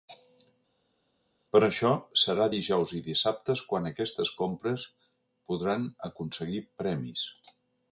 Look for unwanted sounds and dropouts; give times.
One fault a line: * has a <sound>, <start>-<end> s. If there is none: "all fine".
all fine